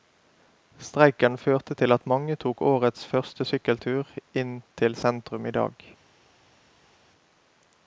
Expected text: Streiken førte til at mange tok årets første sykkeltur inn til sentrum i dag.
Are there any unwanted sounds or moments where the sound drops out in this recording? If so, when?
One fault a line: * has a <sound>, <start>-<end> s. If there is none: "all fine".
all fine